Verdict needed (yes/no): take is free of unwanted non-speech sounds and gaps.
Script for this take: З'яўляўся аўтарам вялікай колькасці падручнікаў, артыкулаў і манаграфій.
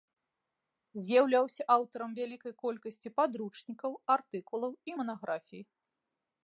yes